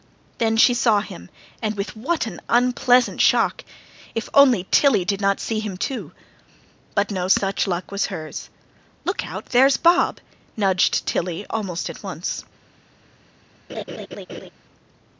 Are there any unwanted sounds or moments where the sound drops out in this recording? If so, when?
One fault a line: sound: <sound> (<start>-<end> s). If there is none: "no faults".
sound: laugh (13.7-14.5 s)